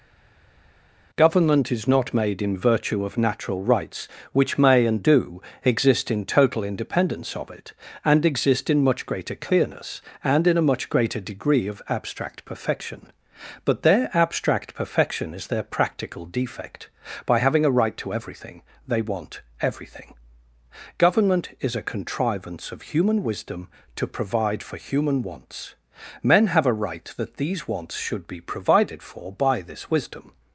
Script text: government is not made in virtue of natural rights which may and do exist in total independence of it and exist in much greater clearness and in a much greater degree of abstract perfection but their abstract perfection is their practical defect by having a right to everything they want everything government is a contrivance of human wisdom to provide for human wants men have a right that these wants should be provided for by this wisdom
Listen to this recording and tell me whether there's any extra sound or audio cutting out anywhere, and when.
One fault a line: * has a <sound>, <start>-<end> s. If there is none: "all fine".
all fine